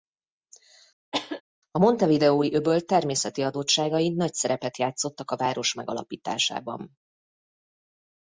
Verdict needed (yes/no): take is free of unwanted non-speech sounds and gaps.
no